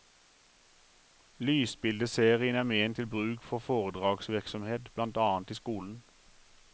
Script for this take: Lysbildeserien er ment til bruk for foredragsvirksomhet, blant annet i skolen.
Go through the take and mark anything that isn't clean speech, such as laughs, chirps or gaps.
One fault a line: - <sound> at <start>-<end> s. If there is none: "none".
none